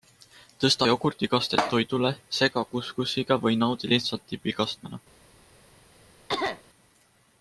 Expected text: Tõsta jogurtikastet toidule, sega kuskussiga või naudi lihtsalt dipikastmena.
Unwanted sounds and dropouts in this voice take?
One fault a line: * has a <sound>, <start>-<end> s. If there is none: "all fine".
* has a cough, 6.3-6.6 s